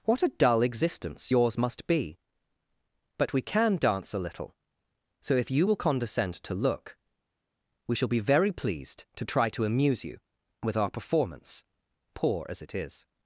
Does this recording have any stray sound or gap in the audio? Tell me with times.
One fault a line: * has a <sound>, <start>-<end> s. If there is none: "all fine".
all fine